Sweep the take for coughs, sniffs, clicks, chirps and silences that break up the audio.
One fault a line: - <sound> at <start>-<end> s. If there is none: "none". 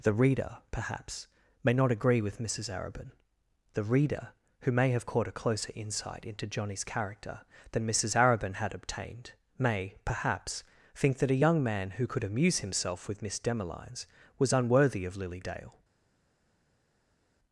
none